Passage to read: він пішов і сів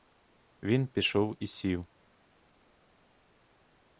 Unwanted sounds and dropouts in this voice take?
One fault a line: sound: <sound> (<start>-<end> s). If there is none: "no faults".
no faults